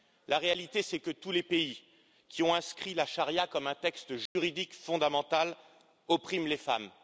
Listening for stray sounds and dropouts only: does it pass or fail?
fail